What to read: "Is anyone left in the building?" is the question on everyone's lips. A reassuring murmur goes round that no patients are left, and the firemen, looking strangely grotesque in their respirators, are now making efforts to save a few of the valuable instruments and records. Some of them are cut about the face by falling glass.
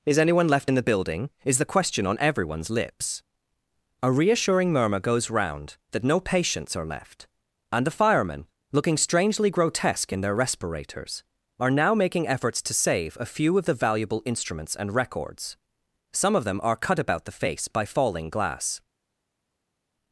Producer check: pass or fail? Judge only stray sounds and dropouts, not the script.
pass